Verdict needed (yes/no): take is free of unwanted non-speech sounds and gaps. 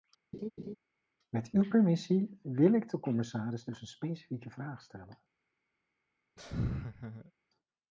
no